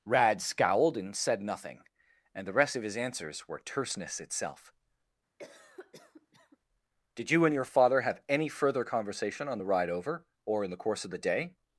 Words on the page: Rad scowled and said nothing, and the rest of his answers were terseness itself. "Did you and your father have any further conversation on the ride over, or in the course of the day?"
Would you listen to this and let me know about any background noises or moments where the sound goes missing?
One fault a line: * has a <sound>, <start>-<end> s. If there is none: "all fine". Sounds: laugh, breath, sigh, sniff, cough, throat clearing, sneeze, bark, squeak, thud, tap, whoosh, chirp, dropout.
* has a cough, 5.4-6.6 s